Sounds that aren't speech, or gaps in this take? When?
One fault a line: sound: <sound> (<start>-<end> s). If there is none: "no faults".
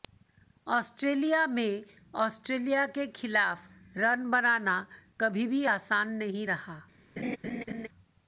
sound: laugh (7.2-7.9 s)